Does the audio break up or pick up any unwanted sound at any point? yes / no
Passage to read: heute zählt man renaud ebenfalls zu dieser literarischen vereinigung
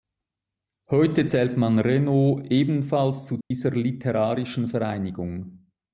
yes